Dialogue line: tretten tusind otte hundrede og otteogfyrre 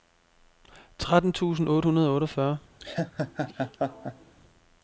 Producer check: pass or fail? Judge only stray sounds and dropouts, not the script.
fail